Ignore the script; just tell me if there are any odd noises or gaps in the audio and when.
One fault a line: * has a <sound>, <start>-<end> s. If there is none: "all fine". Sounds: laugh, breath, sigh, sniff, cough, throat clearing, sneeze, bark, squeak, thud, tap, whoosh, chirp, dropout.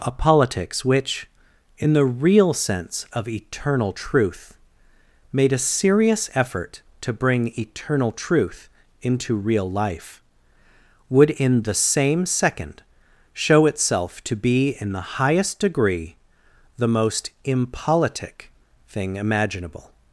all fine